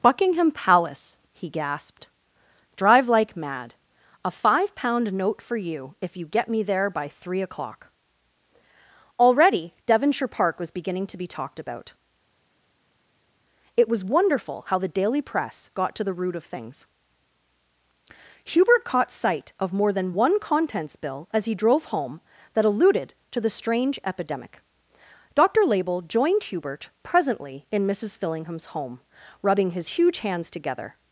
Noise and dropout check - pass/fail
pass